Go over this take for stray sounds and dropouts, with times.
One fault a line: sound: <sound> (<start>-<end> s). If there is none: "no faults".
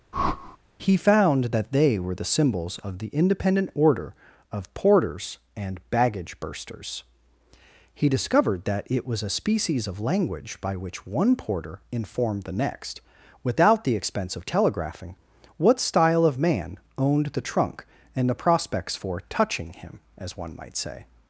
sound: whoosh (0.1-0.6 s)